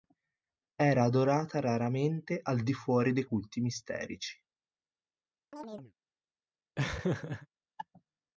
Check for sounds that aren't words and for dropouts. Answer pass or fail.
fail